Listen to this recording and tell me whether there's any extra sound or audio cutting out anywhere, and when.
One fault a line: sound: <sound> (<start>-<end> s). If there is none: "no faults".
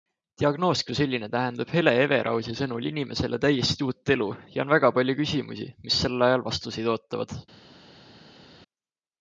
no faults